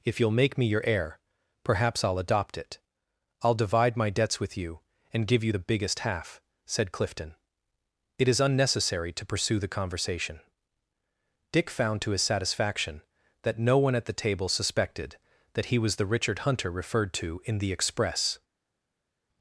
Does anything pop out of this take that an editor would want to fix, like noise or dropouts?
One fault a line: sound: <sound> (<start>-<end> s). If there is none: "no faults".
no faults